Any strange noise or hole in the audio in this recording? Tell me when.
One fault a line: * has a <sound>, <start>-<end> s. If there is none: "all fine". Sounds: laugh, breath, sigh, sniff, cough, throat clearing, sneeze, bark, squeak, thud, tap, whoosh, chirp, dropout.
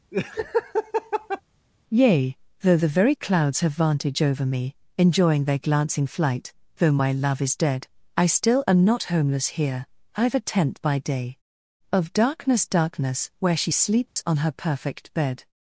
* has a laugh, 0.1-1.4 s
* has a dropout, 14.1-14.2 s